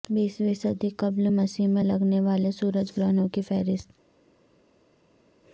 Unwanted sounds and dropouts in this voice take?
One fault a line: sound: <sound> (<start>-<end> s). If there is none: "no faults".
no faults